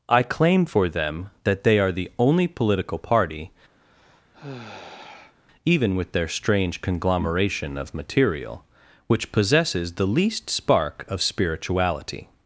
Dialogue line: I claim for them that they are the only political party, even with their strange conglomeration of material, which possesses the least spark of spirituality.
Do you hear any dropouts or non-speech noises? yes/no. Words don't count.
yes